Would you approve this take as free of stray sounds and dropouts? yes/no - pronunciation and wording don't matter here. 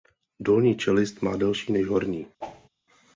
no